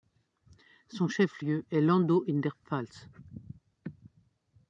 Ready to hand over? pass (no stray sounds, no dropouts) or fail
pass